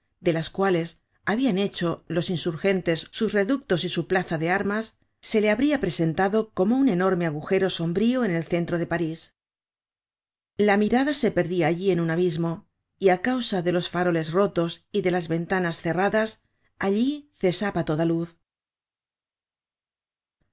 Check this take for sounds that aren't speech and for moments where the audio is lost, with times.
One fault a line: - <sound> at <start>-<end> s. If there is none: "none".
none